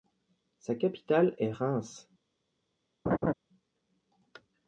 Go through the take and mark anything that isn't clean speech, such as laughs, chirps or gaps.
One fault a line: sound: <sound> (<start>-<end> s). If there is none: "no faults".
sound: laugh (3.1-3.3 s)